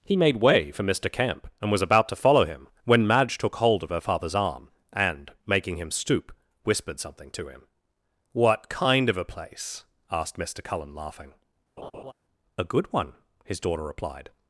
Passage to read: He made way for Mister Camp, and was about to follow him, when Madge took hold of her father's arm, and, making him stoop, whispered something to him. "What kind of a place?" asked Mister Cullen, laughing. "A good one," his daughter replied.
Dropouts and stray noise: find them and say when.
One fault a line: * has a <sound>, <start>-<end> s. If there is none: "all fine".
* has a laugh, 11.8-12.1 s